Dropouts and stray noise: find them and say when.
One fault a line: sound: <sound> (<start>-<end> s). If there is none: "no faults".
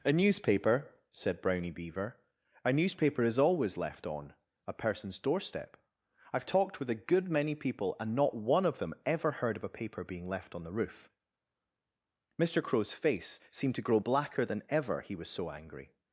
no faults